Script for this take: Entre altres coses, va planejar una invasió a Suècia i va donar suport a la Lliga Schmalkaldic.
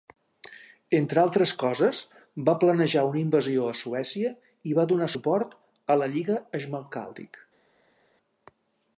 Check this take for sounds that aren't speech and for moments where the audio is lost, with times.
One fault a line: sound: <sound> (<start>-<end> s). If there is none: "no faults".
no faults